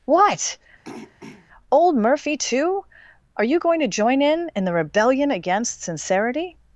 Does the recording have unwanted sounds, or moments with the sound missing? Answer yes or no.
yes